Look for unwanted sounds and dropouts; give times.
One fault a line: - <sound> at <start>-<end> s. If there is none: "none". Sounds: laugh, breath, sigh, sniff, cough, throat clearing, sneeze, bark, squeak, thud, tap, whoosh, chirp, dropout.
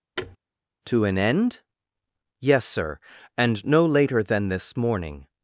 - thud at 0.2-0.4 s